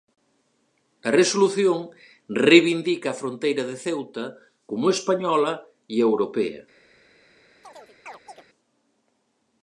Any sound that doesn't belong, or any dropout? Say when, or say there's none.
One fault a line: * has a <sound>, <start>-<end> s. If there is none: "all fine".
* has a chirp, 7.6-8.4 s